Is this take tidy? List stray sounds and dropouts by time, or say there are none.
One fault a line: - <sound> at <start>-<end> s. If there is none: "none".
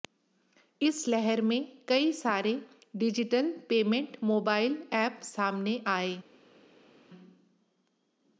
none